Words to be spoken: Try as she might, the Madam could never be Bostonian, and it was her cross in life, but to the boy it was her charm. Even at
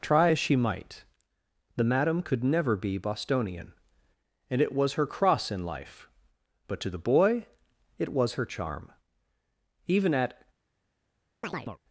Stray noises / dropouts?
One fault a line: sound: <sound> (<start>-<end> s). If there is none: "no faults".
sound: chirp (11.4-11.8 s)